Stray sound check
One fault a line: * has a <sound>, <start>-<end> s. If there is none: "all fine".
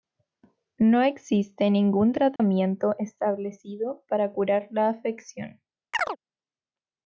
* has a dropout, 2.4-2.4 s
* has a chirp, 5.9-6.2 s